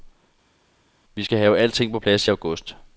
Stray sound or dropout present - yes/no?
no